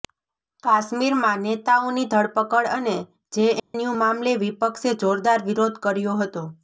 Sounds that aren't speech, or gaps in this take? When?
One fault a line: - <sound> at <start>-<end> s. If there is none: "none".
- dropout at 3.6-3.7 s